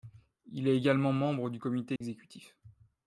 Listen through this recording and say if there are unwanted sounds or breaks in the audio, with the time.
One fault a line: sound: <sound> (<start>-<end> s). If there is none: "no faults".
sound: dropout (2.0-2.0 s)